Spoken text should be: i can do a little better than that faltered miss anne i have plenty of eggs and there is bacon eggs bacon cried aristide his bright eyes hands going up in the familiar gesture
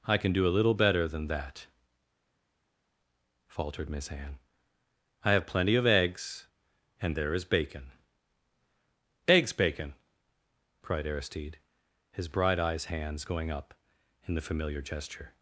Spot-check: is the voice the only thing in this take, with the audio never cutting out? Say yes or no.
yes